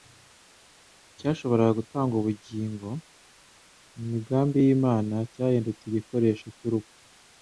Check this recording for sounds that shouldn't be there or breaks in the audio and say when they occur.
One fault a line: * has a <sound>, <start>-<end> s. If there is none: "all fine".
all fine